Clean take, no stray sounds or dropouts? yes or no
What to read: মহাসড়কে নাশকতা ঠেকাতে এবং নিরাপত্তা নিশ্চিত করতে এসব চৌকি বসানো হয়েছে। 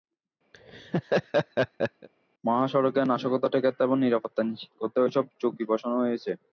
no